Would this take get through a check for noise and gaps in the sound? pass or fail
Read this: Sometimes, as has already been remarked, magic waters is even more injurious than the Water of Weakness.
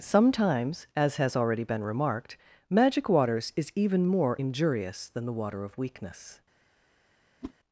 fail